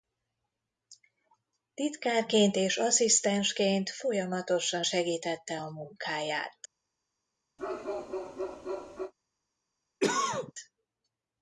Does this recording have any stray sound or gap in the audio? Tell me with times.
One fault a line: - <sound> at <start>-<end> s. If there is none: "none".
- bark at 7.6-9.1 s
- cough at 10.0-10.5 s